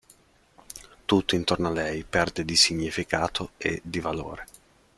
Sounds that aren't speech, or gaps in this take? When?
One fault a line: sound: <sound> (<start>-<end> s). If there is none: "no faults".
no faults